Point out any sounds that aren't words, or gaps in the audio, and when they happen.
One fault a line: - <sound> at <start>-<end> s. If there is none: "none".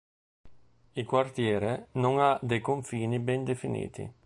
none